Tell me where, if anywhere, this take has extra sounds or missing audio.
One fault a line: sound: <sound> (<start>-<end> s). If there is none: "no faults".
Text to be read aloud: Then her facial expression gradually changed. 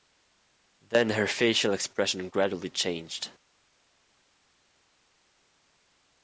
no faults